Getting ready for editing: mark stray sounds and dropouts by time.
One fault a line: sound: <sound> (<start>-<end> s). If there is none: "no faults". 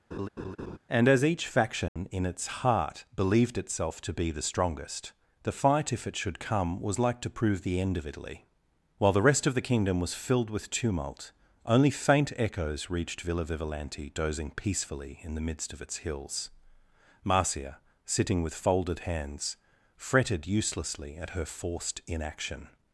sound: laugh (0.1-0.8 s)
sound: dropout (1.9-2.0 s)